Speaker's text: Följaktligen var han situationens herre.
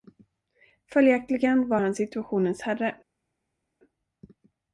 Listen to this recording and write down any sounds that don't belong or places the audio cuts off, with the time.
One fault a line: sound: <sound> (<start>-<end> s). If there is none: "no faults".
no faults